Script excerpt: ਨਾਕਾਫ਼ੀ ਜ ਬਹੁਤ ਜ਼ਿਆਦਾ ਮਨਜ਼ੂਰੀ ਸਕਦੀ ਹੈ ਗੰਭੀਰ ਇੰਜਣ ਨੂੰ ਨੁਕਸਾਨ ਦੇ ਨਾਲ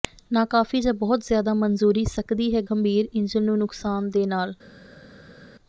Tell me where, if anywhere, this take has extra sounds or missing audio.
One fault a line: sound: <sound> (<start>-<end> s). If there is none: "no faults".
no faults